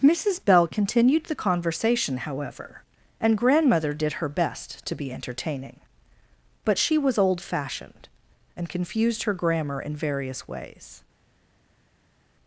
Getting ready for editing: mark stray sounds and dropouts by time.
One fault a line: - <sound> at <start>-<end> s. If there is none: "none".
none